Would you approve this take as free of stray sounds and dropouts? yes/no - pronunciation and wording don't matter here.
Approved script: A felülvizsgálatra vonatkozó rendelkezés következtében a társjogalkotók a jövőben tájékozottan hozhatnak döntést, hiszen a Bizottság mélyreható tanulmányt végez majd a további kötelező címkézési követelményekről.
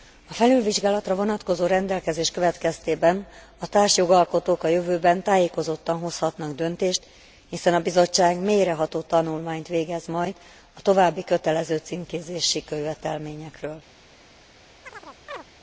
no